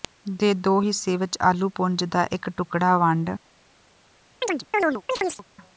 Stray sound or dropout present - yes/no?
yes